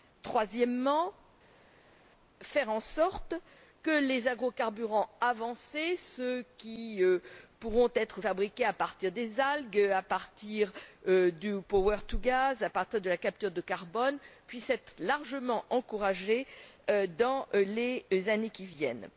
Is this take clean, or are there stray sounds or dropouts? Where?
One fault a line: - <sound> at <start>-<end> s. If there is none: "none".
none